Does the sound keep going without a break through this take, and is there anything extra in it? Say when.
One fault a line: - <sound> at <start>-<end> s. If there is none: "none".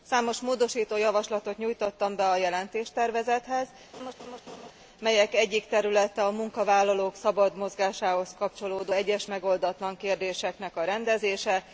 - laugh at 3.9-4.7 s